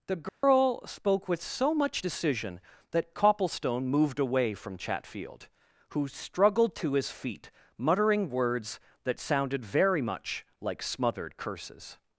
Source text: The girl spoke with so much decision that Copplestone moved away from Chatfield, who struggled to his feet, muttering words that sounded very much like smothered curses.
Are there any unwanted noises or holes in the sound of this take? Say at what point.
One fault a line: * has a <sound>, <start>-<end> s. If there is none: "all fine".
* has a dropout, 0.3-0.4 s